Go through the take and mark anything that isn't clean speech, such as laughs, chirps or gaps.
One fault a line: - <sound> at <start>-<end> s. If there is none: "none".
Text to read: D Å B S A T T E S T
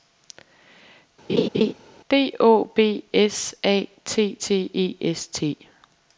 - laugh at 1.3-1.7 s